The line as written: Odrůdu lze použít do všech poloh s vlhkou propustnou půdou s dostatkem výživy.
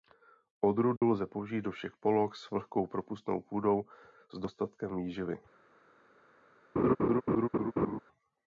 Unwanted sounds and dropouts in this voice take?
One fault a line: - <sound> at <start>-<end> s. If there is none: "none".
- dropout at 1.0-1.0 s
- laugh at 6.8-8.0 s